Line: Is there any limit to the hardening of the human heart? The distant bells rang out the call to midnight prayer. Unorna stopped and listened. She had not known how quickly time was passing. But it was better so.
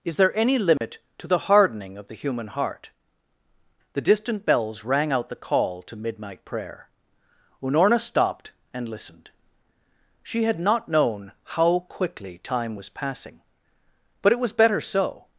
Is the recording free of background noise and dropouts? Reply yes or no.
no